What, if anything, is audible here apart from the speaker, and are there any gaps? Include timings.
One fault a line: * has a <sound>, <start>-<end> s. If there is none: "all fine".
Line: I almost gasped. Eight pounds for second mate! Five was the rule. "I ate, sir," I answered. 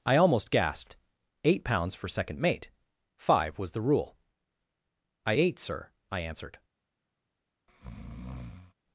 * has a breath, 7.7-8.7 s